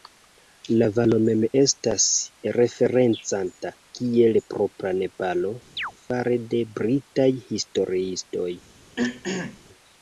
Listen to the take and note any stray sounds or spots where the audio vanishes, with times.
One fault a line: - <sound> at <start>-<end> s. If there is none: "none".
- chirp at 5.8-5.9 s
- throat clearing at 9.0-9.6 s